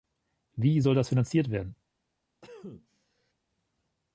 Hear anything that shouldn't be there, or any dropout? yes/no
yes